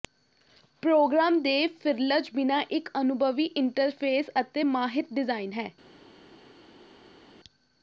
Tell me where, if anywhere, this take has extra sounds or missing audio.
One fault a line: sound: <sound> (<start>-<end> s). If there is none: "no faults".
no faults